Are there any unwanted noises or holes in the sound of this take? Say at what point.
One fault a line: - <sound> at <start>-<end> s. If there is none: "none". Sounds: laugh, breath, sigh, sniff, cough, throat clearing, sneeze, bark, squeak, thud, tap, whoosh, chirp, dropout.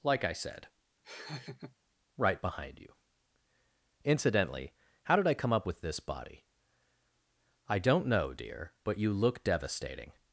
- laugh at 1.0-1.8 s